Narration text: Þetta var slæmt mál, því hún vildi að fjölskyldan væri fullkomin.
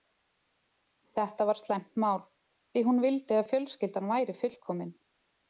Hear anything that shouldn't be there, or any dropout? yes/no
no